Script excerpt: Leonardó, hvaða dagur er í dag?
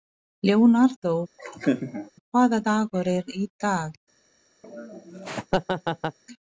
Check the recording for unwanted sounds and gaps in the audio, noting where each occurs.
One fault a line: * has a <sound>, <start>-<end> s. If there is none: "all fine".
* has a laugh, 1.4-2.1 s
* has a laugh, 4.6-6.2 s